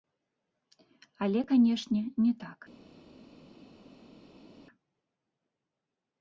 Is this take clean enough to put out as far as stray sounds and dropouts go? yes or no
yes